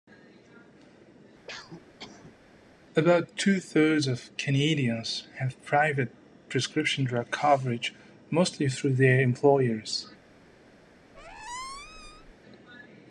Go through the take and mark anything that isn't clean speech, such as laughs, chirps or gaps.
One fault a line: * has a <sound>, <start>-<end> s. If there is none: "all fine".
* has a cough, 1.5-2.4 s
* has a squeak, 11.1-12.3 s